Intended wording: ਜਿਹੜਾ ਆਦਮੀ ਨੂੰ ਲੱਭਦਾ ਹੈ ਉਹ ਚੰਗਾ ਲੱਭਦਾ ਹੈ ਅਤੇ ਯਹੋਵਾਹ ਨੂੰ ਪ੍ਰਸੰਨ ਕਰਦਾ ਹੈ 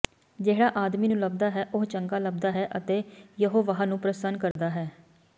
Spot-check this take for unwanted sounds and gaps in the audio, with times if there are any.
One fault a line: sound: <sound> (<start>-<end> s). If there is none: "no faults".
sound: dropout (4.5-4.6 s)